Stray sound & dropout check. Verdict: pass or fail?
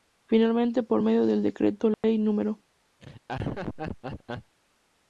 fail